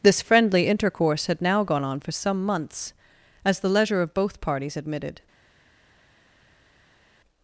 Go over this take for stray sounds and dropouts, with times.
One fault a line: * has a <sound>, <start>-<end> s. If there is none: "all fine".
all fine